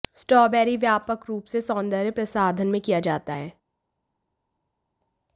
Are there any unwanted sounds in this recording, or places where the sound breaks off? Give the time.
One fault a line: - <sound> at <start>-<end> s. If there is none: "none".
none